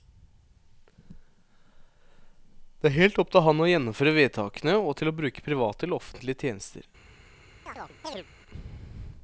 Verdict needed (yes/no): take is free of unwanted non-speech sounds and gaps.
no